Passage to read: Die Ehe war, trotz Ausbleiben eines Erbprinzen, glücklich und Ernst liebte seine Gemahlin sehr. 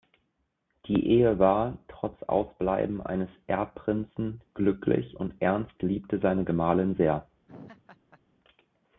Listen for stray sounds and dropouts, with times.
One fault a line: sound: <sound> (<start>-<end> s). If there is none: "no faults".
sound: laugh (7.5-8.2 s)